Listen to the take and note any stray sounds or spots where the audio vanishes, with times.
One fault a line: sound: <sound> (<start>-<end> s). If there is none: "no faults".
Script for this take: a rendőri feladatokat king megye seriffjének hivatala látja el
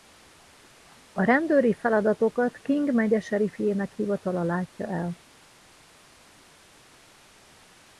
no faults